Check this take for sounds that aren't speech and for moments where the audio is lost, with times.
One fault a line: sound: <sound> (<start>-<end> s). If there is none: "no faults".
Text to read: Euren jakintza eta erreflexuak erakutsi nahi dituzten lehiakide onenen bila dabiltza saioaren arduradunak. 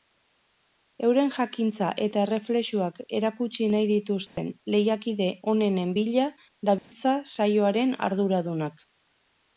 sound: dropout (4.3-4.4 s)
sound: dropout (6.8-6.9 s)